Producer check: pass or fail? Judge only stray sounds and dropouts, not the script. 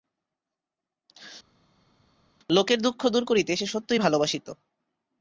pass